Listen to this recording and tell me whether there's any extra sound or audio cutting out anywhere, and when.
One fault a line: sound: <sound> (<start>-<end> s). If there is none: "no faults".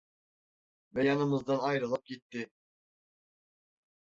no faults